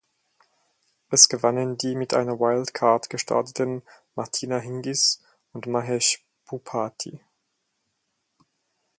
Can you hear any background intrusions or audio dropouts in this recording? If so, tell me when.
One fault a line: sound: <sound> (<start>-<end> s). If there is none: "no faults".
no faults